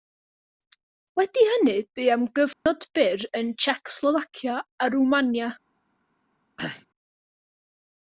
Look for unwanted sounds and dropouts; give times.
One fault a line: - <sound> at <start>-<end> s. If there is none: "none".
- dropout at 2.5-2.7 s
- throat clearing at 6.6-6.9 s